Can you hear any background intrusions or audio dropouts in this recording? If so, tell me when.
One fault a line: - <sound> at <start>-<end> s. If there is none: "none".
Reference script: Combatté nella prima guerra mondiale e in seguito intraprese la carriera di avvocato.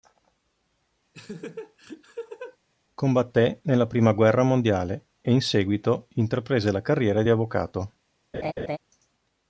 - laugh at 1.1-2.6 s
- laugh at 8.3-8.8 s